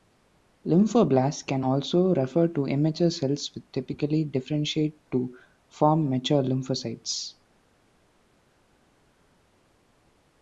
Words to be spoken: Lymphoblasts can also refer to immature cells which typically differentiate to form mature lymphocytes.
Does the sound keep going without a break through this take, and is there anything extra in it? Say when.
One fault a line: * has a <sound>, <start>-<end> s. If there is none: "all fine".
all fine